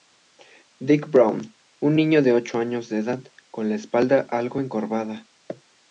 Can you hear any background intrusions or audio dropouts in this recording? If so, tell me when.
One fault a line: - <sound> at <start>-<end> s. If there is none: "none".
none